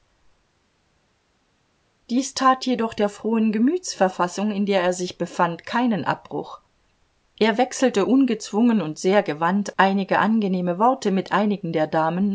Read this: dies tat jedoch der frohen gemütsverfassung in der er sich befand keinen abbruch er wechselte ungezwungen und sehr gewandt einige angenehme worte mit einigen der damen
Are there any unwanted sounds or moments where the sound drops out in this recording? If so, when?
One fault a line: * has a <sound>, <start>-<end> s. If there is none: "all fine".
all fine